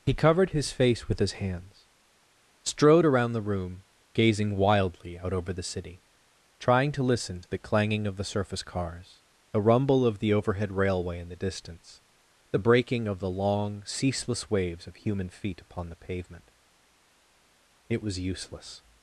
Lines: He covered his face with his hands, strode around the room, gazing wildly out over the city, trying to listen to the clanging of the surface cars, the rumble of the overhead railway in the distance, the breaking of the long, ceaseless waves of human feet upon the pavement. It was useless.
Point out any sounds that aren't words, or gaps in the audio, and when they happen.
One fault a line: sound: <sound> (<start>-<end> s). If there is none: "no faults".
no faults